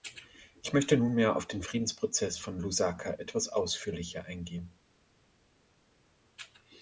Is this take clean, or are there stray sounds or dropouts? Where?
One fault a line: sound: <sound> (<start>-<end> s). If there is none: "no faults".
no faults